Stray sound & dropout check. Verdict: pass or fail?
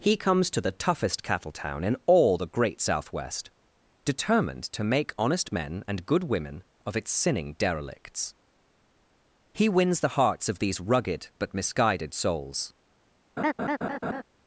fail